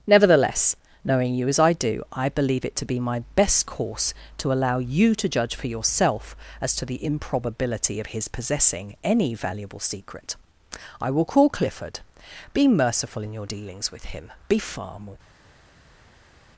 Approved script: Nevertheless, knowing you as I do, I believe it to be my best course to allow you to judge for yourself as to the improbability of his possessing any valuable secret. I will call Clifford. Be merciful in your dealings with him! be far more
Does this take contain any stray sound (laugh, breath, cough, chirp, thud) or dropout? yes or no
no